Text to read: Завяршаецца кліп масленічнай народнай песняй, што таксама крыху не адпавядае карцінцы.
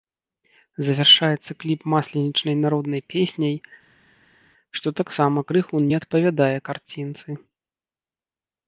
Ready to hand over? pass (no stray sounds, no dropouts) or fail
pass